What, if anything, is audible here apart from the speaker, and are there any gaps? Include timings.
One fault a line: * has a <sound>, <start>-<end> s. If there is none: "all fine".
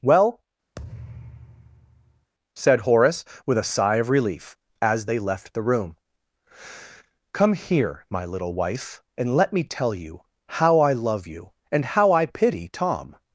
* has a thud, 0.8-2.3 s